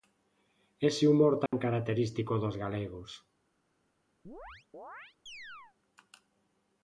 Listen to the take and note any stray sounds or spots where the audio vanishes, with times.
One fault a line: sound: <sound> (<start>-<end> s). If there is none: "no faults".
sound: dropout (1.5-1.5 s)
sound: chirp (4.2-5.8 s)